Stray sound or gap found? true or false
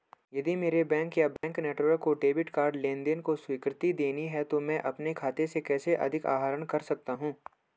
true